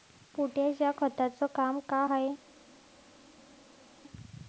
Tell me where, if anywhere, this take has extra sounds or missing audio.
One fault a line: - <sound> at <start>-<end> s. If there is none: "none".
none